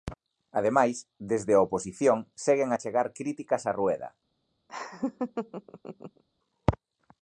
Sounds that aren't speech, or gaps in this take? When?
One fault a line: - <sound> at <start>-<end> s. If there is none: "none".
- laugh at 4.7-6.2 s